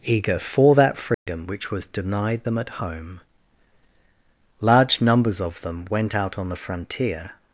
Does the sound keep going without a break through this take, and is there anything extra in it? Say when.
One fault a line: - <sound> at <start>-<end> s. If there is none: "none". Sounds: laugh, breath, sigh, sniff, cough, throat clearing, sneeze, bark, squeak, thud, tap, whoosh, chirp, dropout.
- dropout at 1.1-1.3 s